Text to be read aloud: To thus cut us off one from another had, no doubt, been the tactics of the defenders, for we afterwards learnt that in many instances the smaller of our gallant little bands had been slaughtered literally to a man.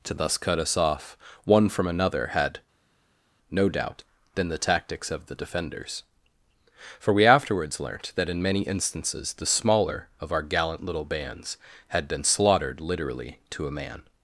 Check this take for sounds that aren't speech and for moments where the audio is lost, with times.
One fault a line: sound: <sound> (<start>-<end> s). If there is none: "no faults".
no faults